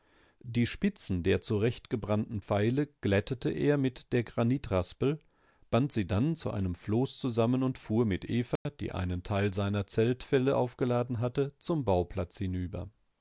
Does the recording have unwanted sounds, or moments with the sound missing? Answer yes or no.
yes